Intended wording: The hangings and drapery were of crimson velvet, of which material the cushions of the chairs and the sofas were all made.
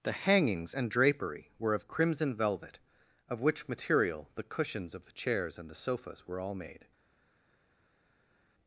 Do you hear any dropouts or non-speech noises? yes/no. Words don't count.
no